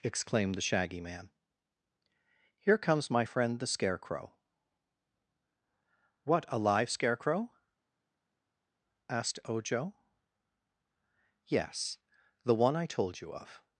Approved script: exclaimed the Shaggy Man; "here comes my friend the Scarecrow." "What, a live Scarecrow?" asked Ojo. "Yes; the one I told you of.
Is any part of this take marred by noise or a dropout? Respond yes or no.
no